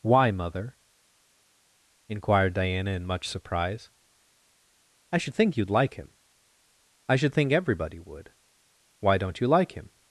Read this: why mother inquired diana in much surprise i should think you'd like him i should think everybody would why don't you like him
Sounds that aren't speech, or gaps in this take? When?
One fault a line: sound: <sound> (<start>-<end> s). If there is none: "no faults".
no faults